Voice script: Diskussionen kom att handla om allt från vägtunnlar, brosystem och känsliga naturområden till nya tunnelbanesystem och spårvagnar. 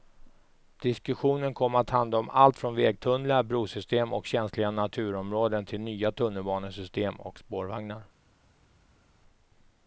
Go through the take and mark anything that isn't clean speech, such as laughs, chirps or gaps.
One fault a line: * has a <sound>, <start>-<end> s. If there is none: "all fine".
all fine